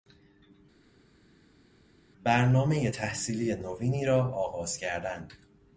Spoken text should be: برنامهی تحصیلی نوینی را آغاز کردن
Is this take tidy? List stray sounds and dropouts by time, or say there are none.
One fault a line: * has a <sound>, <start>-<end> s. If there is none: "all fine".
all fine